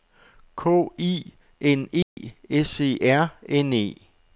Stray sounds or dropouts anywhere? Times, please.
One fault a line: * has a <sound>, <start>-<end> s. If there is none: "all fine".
* has a dropout, 2.0-2.2 s